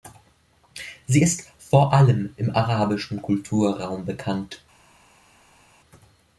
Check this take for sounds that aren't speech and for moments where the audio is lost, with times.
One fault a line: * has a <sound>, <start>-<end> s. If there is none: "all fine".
all fine